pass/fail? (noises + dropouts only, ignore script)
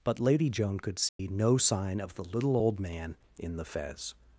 fail